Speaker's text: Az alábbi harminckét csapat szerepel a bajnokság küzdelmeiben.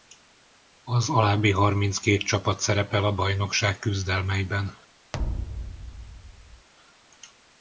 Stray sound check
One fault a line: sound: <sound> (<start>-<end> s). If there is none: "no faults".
sound: thud (5.1-6.7 s)